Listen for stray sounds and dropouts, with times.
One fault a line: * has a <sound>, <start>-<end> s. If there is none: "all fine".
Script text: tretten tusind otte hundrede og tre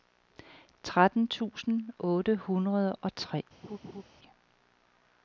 * has a laugh, 3.6-4.0 s